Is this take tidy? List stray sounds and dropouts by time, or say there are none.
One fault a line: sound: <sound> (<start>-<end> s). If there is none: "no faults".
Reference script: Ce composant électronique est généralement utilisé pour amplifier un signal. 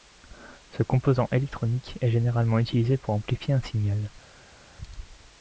no faults